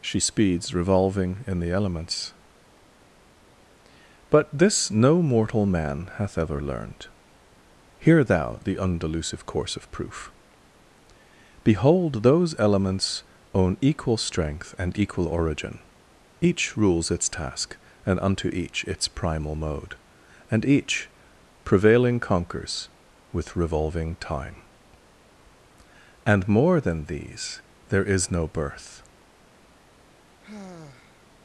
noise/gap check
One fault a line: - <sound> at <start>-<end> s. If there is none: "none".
- sigh at 30.4-31.3 s